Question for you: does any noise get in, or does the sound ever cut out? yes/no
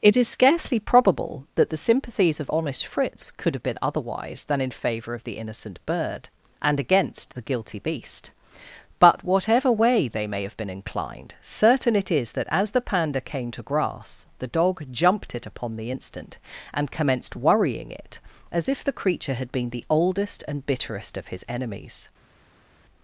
no